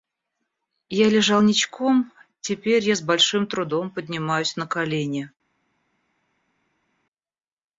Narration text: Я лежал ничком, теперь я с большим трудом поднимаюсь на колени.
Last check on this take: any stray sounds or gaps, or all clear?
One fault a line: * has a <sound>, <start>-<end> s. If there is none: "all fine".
all fine